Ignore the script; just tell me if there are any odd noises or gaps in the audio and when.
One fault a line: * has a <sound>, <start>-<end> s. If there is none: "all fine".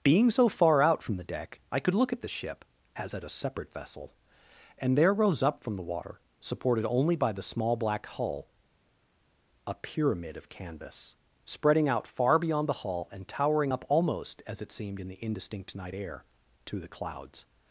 all fine